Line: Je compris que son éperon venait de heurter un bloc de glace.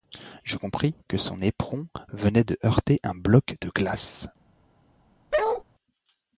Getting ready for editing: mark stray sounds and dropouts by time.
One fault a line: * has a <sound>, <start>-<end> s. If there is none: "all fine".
* has a bark, 5.3-5.6 s